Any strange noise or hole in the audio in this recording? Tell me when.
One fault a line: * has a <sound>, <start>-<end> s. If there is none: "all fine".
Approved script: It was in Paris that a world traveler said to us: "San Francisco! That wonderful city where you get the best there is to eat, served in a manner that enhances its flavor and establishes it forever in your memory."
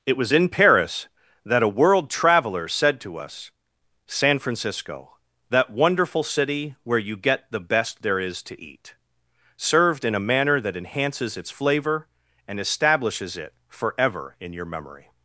all fine